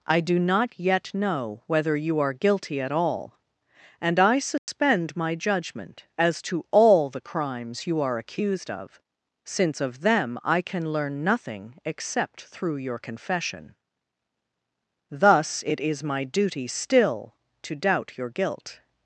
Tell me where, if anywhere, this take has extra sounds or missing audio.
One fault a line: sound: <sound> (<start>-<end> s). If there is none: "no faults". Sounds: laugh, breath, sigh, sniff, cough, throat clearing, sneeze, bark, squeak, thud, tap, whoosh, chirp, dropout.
sound: dropout (4.6-4.7 s)